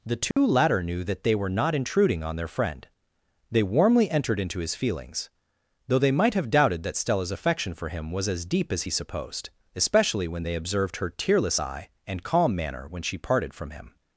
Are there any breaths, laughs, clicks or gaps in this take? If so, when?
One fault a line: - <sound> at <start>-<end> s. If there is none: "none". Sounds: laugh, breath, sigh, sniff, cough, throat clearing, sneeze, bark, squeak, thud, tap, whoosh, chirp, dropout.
- dropout at 0.3-0.4 s